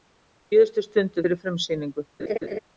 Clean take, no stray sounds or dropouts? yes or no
no